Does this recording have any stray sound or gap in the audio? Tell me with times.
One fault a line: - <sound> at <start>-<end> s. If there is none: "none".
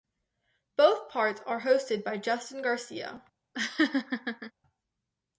- laugh at 3.5-4.5 s